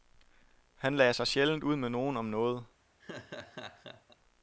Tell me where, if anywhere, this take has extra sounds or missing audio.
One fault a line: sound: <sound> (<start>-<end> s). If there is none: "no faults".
sound: laugh (3.0-4.2 s)